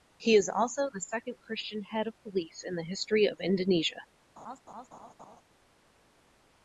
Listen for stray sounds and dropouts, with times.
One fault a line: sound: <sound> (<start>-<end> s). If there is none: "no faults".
sound: laugh (4.4-5.4 s)